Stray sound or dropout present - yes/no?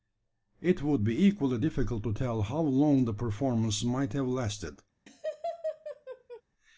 yes